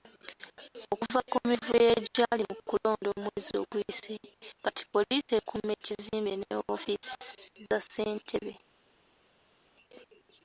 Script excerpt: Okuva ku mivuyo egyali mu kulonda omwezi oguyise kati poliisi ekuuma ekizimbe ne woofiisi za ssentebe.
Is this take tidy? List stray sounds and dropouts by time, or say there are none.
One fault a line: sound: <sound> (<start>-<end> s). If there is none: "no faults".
no faults